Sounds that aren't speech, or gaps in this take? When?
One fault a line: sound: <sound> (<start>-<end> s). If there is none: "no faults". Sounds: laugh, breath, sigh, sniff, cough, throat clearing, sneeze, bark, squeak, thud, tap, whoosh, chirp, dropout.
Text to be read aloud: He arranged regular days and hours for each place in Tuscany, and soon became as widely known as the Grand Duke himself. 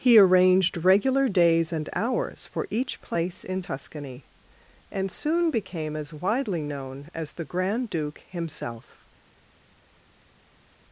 no faults